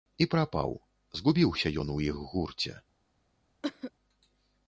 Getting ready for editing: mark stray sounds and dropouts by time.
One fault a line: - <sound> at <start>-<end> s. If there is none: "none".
- cough at 3.6-3.9 s